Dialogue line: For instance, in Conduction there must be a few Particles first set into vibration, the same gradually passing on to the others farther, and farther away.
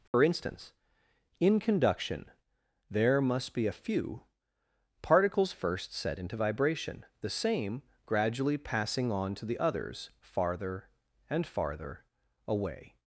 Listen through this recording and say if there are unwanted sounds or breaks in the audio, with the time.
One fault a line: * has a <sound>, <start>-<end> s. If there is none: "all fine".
* has a dropout, 0.1-0.1 s